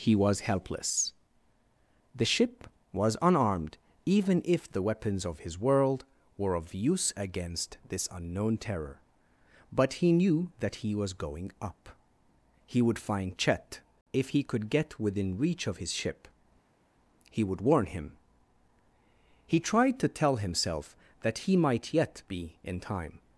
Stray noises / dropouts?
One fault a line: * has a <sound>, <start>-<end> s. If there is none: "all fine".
all fine